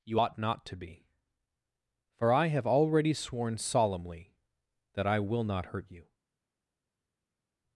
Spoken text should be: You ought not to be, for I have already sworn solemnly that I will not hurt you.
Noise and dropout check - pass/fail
pass